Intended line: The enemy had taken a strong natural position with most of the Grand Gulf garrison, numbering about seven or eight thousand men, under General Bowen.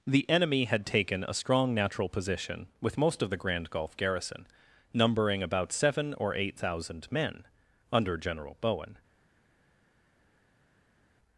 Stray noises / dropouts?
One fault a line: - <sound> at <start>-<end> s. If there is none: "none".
none